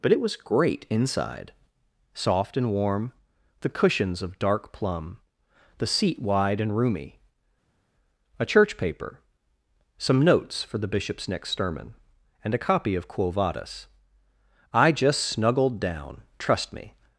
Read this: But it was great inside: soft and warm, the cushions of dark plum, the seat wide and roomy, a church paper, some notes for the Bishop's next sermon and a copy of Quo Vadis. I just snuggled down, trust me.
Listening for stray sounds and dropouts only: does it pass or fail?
pass